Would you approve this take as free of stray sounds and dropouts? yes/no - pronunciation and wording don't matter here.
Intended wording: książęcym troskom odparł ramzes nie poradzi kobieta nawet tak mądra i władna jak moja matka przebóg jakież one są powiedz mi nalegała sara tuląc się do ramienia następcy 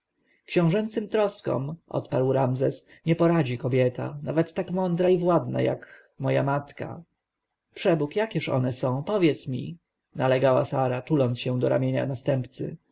yes